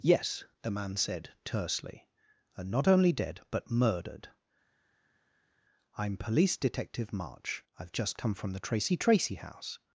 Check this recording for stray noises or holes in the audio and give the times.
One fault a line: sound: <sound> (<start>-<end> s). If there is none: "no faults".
no faults